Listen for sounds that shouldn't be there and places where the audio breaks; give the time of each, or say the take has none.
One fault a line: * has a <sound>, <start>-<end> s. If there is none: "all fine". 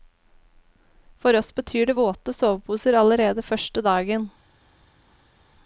all fine